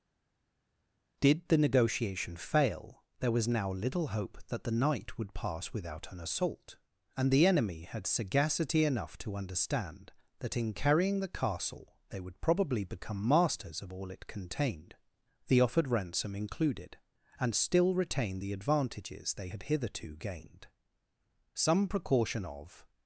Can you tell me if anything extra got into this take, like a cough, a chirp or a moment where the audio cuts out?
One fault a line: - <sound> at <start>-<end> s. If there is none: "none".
none